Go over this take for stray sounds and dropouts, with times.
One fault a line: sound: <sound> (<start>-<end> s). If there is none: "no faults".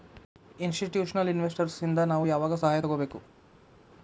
no faults